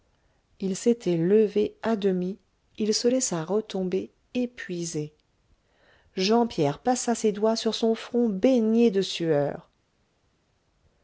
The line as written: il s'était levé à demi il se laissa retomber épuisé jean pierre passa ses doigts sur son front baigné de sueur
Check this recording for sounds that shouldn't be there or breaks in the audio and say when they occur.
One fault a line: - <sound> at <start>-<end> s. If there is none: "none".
none